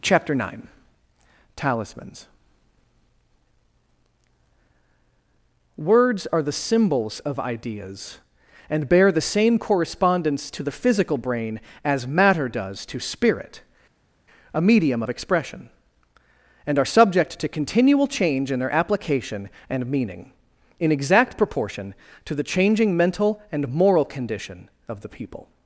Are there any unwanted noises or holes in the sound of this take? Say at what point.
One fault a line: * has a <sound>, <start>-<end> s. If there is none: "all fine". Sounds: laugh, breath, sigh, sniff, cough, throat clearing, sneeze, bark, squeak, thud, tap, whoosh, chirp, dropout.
all fine